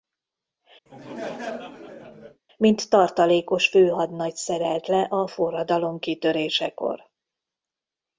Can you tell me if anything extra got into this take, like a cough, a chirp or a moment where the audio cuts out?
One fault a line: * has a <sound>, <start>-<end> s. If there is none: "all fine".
* has a laugh, 0.9-2.4 s